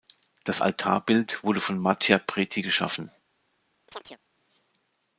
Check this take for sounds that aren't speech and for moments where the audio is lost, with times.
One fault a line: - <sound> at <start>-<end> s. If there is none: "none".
- chirp at 3.9-4.2 s